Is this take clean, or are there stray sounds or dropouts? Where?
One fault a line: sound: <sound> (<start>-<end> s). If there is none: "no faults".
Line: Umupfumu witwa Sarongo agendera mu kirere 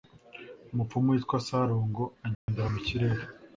sound: dropout (2.3-2.5 s)